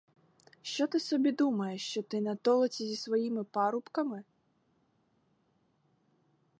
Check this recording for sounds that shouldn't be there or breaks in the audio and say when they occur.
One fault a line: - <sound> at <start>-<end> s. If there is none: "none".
none